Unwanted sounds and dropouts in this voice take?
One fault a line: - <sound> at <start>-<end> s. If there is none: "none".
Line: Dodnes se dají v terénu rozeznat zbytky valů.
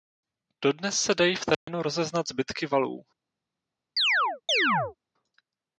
- dropout at 1.5-1.7 s
- chirp at 4.0-5.0 s